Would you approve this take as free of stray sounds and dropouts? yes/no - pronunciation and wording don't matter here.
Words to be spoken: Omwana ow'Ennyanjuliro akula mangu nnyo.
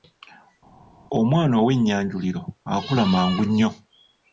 yes